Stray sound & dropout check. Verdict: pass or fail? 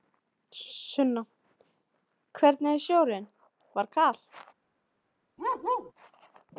fail